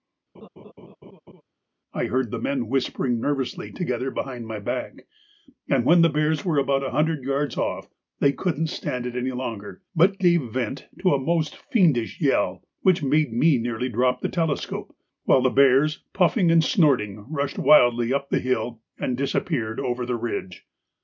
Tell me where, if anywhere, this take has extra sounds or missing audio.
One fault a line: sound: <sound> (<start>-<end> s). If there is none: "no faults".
sound: laugh (0.3-1.4 s)